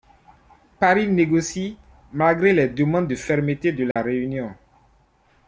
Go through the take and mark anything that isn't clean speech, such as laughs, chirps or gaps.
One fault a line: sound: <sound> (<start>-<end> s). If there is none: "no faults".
sound: dropout (3.9-4.0 s)